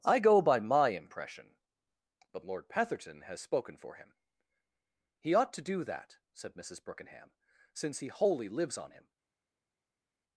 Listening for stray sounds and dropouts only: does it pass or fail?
pass